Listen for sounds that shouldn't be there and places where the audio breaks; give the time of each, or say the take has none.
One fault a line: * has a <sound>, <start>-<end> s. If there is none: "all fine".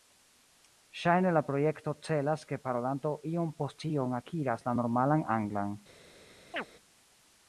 * has a chirp, 6.5-6.6 s